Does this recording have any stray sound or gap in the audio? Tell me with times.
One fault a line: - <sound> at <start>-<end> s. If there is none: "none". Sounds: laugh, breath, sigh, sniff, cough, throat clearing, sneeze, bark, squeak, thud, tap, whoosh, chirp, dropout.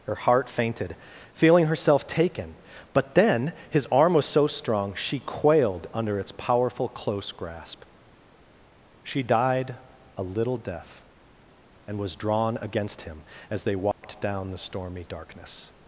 - dropout at 13.9-14.0 s